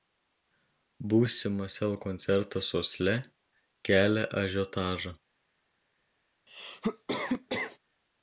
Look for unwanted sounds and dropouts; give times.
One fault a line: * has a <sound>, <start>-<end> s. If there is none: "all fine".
* has a cough, 6.5-7.8 s